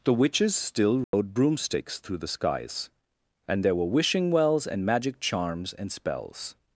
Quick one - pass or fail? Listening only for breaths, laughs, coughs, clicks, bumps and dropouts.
fail